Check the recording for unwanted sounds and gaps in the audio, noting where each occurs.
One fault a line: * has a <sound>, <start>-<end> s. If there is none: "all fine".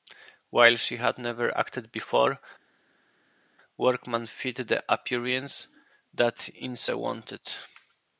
all fine